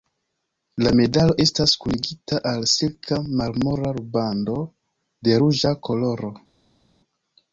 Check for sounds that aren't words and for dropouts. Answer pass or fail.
pass